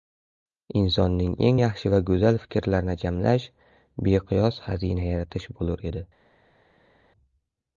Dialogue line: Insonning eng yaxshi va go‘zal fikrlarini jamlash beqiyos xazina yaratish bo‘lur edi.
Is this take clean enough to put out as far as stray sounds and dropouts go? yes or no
yes